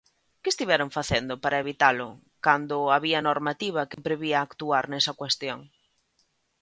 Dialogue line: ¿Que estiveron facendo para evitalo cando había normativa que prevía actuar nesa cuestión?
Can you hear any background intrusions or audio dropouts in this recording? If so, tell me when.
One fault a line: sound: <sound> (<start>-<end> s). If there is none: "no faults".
sound: dropout (3.9-4.0 s)